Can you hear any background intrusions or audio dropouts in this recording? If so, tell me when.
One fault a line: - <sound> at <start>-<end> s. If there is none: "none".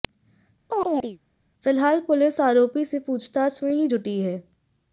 - chirp at 0.7-1.2 s